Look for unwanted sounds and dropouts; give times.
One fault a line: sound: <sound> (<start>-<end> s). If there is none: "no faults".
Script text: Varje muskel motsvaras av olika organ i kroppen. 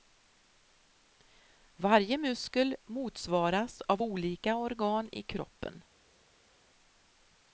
no faults